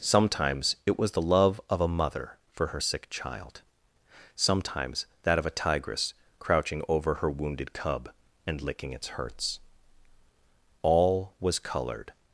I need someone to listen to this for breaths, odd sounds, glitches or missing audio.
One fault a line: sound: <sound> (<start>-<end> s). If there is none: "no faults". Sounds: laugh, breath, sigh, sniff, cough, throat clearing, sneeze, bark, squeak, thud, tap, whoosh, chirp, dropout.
no faults